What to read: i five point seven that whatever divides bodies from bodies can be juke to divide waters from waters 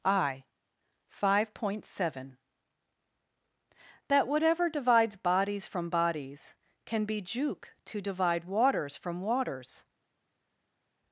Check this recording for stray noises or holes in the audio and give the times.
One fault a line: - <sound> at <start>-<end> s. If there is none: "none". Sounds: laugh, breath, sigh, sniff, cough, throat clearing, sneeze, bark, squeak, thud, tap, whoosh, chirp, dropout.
none